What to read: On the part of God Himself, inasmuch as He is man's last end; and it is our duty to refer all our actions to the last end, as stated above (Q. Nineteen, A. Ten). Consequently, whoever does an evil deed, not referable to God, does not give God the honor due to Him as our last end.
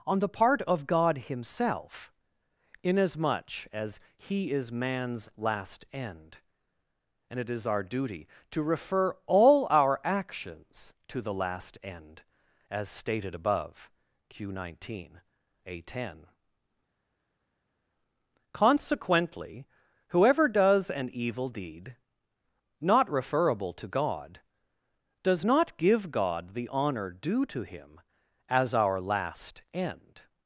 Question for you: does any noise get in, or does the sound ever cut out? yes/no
no